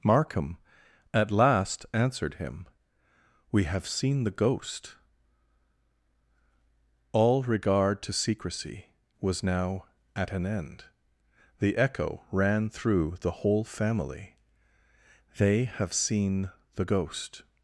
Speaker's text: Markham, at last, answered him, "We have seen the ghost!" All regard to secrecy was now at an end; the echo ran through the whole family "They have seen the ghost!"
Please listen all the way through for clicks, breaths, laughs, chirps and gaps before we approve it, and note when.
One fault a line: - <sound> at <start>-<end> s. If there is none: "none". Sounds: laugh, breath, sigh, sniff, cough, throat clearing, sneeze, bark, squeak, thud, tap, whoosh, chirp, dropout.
none